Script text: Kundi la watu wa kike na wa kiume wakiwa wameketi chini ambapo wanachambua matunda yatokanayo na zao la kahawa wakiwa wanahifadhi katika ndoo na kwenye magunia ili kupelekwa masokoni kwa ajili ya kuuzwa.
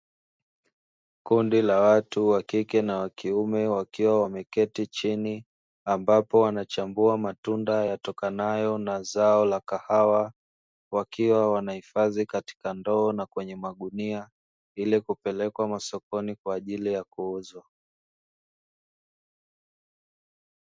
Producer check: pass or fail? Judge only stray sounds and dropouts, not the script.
pass